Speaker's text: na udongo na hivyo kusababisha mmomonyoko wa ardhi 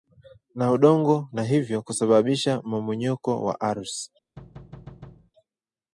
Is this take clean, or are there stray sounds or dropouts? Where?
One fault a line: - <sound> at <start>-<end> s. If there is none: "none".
- thud at 4.4-5.3 s